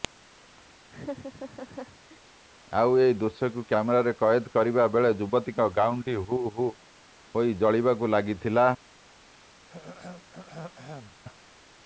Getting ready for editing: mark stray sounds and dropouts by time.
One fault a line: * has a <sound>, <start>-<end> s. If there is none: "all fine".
* has a laugh, 0.9-2.2 s
* has a throat clearing, 9.7-11.2 s